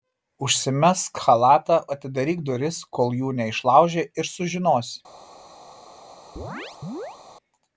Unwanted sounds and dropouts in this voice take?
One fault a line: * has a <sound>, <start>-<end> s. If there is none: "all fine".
* has a chirp, 6.4-7.2 s